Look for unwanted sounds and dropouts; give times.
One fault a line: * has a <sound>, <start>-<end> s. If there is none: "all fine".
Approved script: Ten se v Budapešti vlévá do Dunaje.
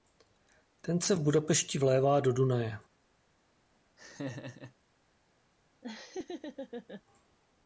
* has a laugh, 4.0-4.7 s
* has a laugh, 5.8-7.0 s